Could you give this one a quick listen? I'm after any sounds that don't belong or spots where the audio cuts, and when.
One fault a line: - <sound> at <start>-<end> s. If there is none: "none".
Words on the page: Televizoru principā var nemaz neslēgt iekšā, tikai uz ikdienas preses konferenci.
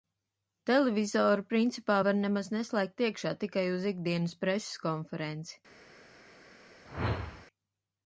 - whoosh at 6.9-7.5 s